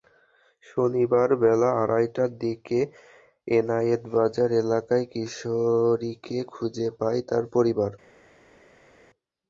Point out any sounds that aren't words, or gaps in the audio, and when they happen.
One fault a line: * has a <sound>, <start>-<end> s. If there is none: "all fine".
all fine